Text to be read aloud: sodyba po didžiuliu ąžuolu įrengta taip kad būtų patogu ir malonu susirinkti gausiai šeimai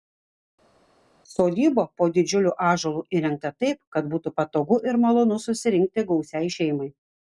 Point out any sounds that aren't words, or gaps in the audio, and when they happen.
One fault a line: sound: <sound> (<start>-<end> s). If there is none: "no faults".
no faults